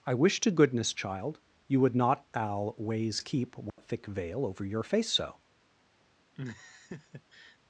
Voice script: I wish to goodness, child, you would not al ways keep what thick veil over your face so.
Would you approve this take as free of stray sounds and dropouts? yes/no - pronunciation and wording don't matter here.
no